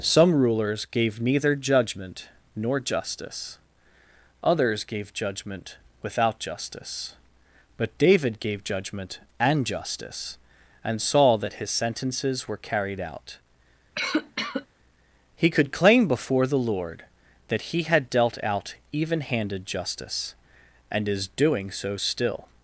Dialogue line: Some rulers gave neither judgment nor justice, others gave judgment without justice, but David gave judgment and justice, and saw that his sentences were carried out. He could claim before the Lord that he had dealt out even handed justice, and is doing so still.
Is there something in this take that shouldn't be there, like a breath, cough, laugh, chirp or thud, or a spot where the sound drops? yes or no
yes